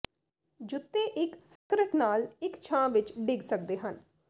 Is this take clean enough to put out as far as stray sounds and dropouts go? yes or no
no